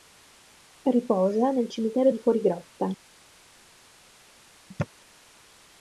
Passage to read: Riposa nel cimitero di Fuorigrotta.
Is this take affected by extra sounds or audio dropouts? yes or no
no